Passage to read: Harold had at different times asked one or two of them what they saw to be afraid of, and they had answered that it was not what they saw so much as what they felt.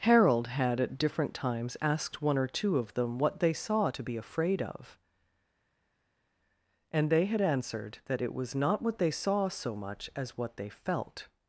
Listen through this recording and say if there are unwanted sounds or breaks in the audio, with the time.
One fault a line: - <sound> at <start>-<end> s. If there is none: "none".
none